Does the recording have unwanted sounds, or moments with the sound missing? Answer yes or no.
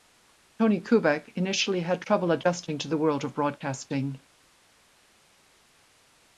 no